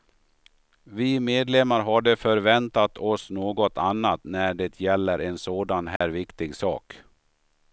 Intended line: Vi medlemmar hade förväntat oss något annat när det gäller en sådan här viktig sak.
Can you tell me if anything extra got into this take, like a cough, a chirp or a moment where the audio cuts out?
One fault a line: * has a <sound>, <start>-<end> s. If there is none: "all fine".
* has a dropout, 6.0-6.0 s